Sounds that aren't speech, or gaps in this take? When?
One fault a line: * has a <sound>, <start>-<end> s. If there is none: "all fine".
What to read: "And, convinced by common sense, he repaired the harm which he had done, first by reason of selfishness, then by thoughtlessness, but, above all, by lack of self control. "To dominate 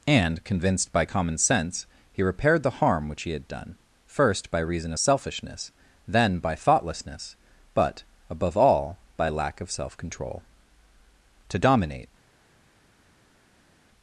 all fine